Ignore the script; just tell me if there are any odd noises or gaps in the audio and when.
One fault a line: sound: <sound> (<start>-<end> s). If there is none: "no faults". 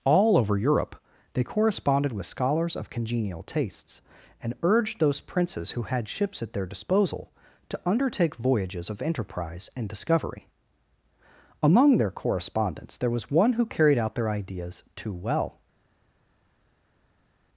no faults